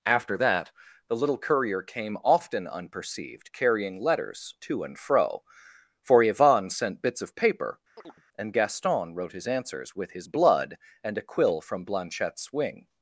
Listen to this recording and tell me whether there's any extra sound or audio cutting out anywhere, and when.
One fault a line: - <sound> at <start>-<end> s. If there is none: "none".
- chirp at 8.0-8.2 s